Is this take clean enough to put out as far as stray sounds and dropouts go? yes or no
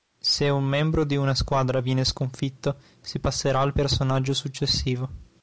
yes